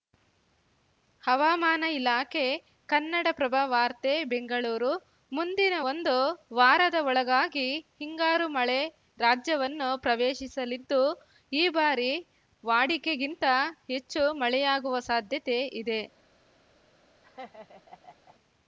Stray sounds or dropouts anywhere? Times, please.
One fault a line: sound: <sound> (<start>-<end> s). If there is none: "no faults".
sound: laugh (17.2-18.4 s)